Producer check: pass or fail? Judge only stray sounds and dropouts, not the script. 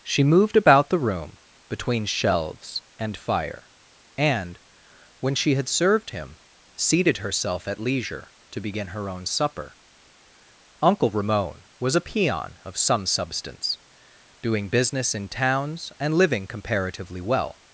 pass